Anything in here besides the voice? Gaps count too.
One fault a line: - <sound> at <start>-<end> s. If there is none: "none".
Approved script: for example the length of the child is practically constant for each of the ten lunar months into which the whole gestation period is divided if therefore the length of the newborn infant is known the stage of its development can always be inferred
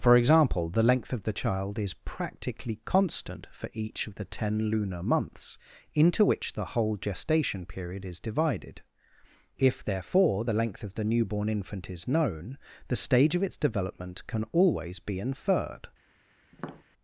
- tap at 16.5-16.8 s